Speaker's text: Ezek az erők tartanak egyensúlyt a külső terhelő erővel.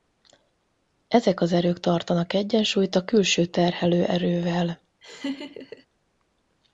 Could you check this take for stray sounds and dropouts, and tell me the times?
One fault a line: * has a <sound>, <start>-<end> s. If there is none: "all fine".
* has a laugh, 5.0-5.9 s